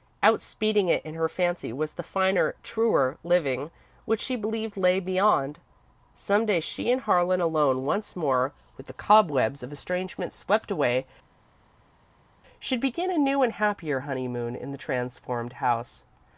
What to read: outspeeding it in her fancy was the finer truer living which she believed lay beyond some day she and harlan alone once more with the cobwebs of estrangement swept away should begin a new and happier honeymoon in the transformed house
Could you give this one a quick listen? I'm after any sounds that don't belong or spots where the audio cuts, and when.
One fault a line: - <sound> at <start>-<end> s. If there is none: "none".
none